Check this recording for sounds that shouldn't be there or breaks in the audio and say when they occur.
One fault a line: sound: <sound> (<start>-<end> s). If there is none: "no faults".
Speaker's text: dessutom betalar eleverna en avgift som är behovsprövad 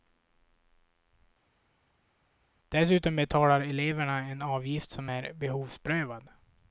no faults